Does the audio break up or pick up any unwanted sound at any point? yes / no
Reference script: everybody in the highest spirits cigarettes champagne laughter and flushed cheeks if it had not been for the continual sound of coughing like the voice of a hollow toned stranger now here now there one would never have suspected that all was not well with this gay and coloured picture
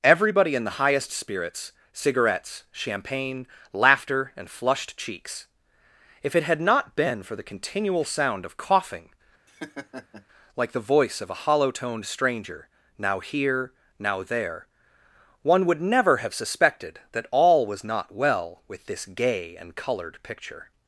yes